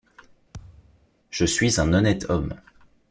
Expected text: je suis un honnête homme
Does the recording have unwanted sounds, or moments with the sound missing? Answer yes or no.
yes